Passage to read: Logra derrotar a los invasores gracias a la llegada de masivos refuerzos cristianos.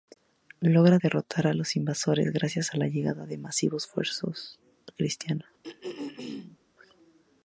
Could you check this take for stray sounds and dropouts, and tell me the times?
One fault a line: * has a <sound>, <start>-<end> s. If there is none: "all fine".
* has a throat clearing, 5.6-6.6 s